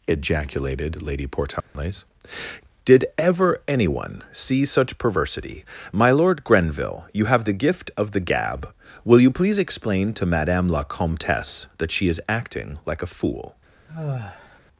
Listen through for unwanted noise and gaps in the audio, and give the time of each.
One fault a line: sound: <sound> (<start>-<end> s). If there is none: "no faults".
sound: dropout (1.6-1.8 s)
sound: sigh (13.9-14.6 s)